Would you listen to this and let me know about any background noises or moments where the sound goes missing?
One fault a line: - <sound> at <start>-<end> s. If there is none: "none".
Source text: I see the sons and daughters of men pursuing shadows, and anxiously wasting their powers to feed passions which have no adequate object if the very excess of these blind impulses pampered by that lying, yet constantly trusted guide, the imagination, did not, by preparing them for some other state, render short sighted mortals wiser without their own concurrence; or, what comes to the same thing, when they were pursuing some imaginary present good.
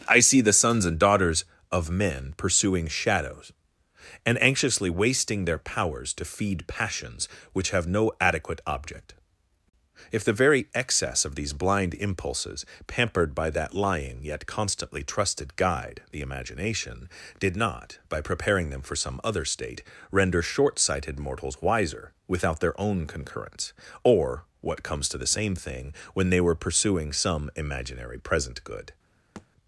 - thud at 29.4-29.5 s